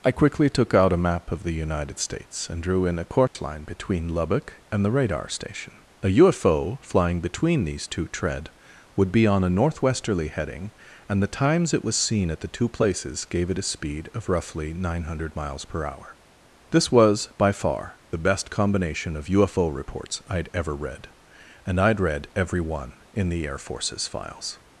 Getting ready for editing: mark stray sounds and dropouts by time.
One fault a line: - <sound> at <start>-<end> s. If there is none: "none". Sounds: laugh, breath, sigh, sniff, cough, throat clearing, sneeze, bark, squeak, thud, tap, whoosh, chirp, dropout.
- dropout at 3.3-3.4 s